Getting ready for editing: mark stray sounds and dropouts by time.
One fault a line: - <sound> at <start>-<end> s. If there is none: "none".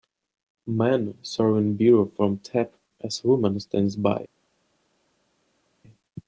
none